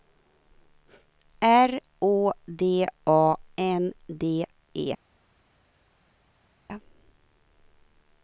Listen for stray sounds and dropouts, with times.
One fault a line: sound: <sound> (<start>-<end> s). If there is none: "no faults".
no faults